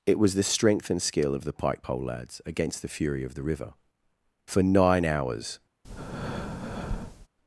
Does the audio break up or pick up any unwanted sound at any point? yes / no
yes